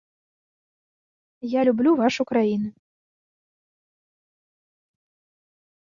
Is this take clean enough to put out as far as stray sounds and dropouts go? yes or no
yes